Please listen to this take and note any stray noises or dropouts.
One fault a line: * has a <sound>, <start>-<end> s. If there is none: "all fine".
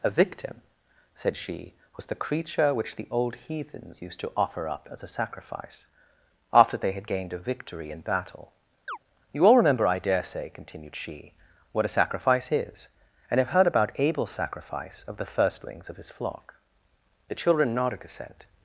* has a chirp, 8.9-9.0 s